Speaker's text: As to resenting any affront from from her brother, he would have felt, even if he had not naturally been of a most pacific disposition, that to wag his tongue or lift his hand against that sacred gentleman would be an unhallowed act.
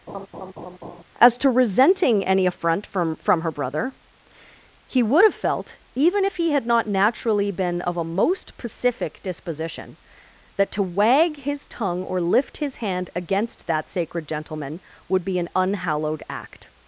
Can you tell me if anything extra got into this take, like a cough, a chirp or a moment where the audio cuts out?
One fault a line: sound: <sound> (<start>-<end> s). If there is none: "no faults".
sound: laugh (0.1-1.0 s)